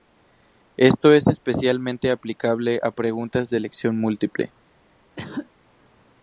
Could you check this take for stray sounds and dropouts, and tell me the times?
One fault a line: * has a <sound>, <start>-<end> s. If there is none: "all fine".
* has a cough, 5.2-5.5 s